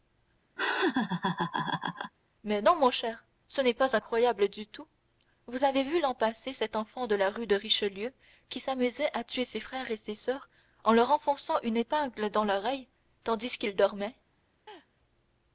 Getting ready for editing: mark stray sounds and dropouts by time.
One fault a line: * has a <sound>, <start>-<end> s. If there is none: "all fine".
* has a laugh, 0.6-2.1 s
* has a laugh, 14.7-14.9 s